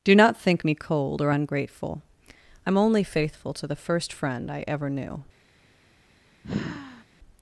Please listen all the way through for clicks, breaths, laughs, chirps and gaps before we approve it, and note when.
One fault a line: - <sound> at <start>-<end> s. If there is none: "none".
- sigh at 6.4-7.0 s